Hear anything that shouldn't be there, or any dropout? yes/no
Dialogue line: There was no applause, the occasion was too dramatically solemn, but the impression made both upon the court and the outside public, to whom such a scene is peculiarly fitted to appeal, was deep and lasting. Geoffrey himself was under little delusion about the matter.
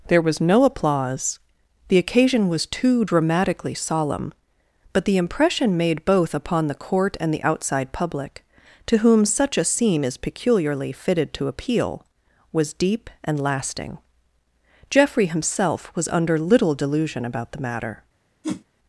yes